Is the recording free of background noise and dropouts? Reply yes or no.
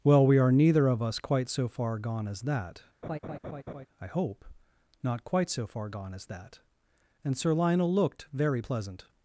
no